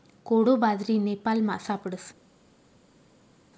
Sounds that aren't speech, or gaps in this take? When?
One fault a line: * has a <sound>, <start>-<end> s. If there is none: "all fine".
all fine